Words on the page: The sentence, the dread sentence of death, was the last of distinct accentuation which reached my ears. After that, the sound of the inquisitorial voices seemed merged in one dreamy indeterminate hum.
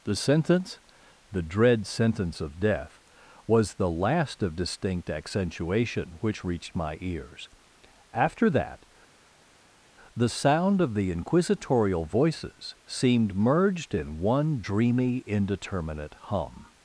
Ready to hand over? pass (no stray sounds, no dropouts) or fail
pass